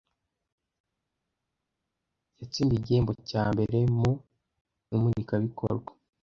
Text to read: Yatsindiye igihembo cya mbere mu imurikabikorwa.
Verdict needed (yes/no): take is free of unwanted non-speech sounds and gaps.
yes